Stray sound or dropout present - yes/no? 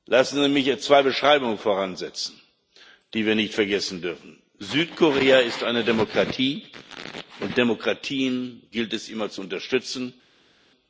no